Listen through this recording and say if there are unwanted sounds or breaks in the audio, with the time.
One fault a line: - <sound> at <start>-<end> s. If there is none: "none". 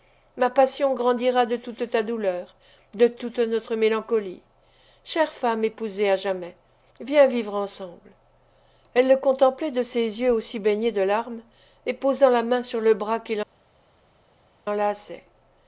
none